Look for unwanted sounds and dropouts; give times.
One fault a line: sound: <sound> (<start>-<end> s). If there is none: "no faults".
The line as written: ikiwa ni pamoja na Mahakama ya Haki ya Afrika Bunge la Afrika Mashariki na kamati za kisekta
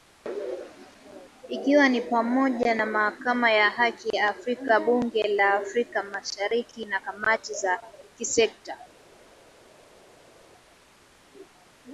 no faults